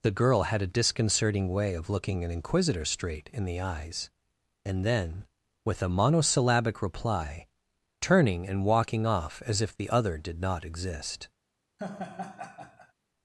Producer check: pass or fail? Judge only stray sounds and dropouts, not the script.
fail